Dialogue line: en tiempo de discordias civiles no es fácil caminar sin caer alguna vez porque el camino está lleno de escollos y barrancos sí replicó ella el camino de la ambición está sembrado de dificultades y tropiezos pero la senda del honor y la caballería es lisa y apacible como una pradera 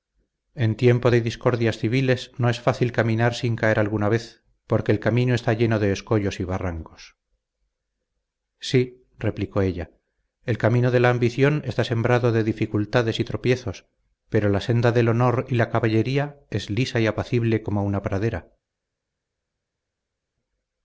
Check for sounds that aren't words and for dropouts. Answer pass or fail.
pass